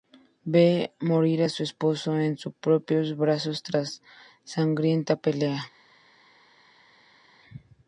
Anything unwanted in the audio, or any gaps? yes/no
no